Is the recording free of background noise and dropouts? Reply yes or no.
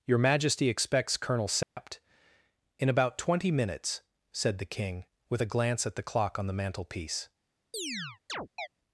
no